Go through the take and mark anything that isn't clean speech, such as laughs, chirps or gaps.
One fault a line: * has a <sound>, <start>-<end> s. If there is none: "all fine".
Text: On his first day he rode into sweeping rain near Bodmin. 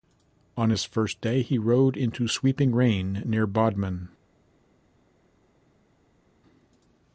all fine